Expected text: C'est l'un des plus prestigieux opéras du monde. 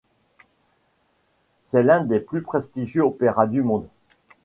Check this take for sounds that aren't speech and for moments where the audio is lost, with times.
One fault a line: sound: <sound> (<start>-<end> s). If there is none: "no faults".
no faults